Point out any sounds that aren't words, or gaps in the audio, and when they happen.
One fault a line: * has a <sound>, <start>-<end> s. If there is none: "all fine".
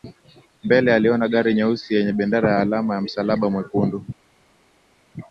all fine